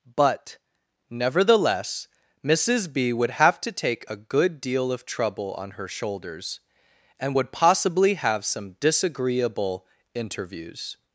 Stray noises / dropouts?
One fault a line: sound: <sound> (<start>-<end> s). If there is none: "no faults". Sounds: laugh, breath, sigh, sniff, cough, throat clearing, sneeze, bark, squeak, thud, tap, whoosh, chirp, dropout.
no faults